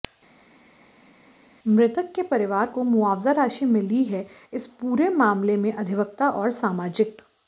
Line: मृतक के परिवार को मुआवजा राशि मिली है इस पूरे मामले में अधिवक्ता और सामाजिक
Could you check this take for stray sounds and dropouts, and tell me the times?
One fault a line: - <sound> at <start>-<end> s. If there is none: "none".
none